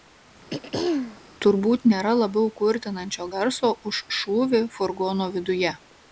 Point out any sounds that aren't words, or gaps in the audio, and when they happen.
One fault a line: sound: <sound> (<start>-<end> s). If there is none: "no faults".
sound: throat clearing (0.5-1.2 s)